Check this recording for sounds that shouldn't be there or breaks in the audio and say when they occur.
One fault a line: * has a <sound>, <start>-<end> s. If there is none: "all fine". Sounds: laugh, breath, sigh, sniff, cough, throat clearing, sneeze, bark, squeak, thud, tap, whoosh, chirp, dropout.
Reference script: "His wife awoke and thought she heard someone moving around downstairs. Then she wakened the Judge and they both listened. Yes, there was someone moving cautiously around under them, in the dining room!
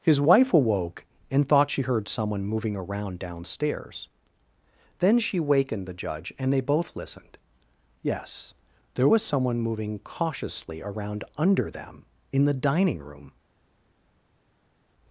all fine